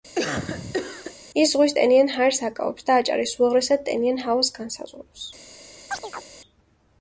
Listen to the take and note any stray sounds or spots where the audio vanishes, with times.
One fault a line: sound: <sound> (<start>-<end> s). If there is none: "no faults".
sound: cough (0.2-1.2 s)
sound: chirp (5.9-6.3 s)